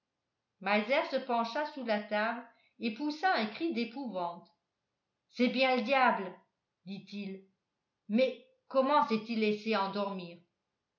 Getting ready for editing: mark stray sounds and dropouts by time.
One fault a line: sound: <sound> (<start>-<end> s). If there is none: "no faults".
no faults